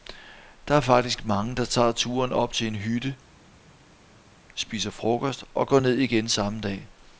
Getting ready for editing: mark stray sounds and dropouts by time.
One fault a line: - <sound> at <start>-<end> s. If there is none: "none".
none